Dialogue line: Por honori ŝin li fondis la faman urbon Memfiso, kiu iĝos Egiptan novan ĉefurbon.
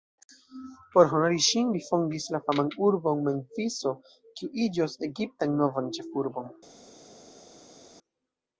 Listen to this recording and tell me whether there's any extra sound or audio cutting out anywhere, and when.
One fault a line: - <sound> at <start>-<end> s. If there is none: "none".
none